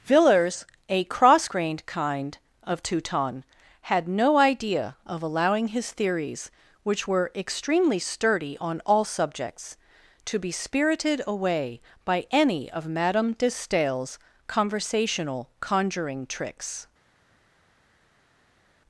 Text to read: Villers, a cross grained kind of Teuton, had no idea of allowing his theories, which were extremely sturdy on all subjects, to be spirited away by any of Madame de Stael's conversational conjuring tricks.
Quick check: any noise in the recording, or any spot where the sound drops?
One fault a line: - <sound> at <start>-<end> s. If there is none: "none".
none